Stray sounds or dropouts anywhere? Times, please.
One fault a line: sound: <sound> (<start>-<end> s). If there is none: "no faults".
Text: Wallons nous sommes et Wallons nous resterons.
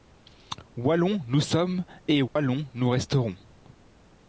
sound: dropout (2.3-2.4 s)